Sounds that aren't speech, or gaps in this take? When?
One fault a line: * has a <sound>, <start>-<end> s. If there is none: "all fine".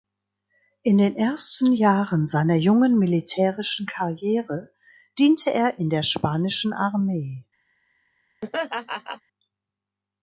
* has a laugh, 8.4-9.2 s